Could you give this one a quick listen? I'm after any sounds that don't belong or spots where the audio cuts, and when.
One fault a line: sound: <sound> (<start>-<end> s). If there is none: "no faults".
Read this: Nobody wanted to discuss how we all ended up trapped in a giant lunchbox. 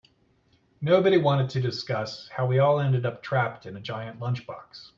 no faults